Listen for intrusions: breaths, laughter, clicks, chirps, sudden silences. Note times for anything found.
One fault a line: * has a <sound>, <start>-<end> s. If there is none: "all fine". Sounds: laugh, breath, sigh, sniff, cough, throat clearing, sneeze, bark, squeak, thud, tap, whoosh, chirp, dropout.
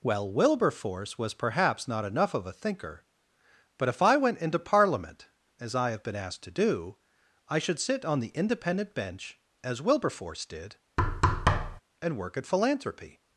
* has a thud, 11.0-11.8 s